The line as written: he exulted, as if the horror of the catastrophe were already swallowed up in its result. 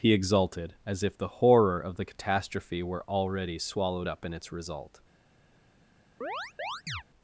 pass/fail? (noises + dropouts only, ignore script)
fail